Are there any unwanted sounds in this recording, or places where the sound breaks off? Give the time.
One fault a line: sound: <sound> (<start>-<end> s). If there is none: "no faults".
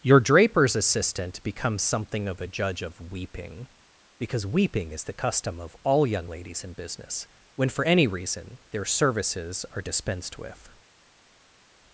no faults